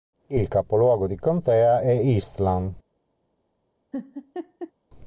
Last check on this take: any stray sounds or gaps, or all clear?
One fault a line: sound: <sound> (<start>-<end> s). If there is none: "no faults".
sound: laugh (3.9-4.7 s)